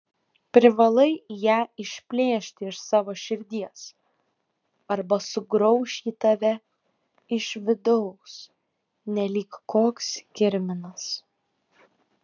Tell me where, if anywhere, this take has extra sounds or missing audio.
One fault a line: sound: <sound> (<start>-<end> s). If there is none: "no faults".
no faults